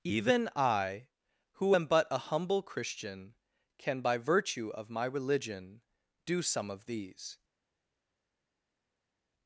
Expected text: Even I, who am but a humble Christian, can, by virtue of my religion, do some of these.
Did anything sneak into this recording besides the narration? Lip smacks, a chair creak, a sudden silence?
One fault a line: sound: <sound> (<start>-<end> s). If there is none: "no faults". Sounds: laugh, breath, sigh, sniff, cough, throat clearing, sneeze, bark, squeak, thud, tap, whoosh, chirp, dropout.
no faults